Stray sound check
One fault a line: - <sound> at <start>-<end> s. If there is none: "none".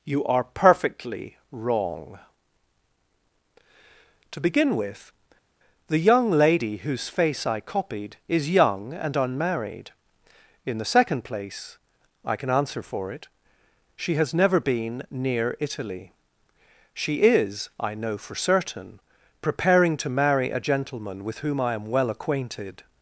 none